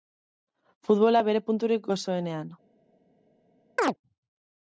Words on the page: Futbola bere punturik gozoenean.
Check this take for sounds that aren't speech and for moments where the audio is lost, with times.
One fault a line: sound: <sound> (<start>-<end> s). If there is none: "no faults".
sound: chirp (3.8-3.9 s)